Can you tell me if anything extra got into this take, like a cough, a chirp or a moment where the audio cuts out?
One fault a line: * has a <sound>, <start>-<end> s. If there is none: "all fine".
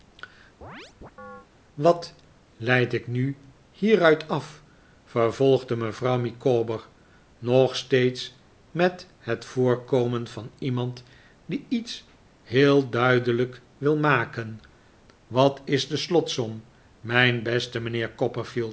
* has a chirp, 0.6-1.5 s